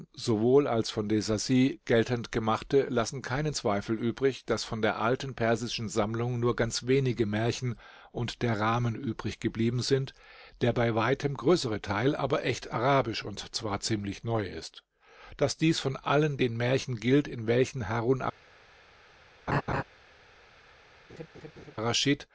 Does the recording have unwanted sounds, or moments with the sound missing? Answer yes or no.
yes